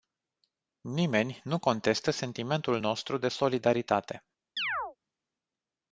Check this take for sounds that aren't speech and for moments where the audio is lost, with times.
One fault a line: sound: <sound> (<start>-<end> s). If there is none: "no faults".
sound: chirp (4.6-5.0 s)